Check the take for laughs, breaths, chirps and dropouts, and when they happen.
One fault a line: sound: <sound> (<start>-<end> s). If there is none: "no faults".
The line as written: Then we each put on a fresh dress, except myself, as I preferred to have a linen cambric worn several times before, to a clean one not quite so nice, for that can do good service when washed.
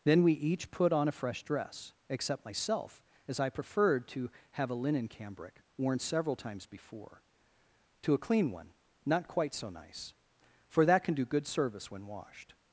no faults